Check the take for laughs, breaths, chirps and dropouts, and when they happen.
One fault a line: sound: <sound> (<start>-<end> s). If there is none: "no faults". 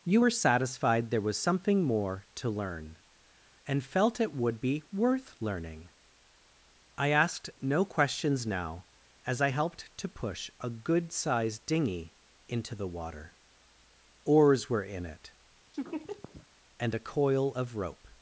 sound: laugh (15.7-16.5 s)